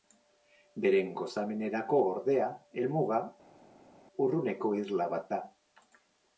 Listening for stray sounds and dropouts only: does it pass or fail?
pass